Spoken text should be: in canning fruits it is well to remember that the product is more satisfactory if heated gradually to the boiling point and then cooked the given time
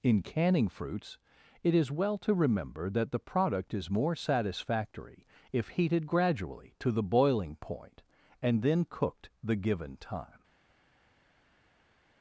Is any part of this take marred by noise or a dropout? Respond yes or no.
no